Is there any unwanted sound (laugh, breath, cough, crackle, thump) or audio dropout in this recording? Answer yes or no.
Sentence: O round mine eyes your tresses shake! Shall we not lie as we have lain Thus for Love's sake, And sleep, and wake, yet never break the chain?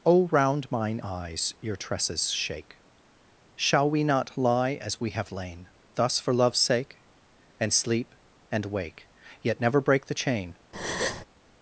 yes